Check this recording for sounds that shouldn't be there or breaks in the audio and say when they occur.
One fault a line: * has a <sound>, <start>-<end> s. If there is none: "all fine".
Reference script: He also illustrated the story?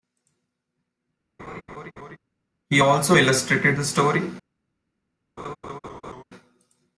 * has a laugh, 1.4-2.2 s
* has a laugh, 5.4-6.2 s